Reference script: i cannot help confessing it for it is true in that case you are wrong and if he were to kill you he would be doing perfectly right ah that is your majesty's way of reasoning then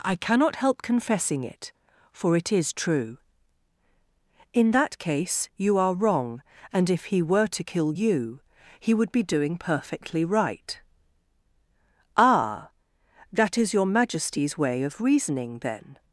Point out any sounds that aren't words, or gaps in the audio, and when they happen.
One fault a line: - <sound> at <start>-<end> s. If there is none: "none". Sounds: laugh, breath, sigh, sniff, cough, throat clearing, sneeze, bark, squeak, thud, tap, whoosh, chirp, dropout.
none